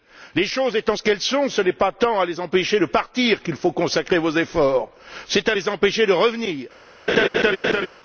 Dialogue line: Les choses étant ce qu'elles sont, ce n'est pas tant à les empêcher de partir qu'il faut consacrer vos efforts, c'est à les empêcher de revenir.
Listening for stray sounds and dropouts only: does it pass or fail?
fail